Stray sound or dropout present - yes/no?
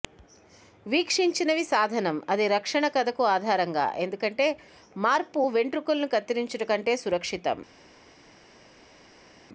no